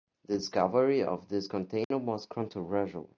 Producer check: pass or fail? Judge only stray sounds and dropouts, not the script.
fail